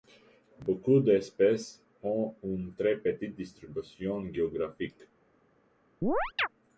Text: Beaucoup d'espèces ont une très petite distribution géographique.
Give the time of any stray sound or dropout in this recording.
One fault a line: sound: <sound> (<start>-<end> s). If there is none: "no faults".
sound: chirp (6.0-6.5 s)